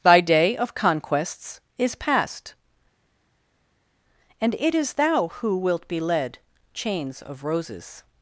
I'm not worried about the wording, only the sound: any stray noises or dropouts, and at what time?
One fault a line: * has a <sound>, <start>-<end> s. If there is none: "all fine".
all fine